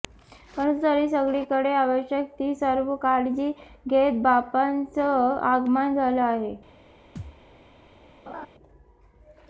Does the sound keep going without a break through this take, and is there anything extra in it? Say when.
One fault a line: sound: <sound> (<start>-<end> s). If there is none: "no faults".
sound: thud (7.2-7.4 s)
sound: laugh (8.3-8.5 s)